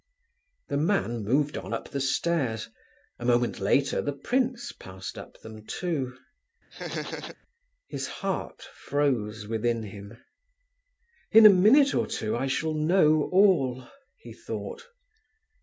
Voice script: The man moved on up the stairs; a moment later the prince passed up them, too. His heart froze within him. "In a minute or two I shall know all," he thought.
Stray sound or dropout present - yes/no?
yes